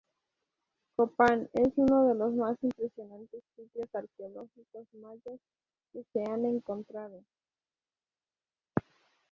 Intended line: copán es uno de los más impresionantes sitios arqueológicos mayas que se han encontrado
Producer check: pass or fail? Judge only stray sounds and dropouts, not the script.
pass